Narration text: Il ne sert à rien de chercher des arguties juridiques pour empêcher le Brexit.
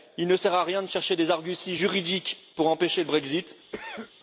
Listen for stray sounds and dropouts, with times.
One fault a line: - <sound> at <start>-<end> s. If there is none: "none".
- cough at 3.7-4.1 s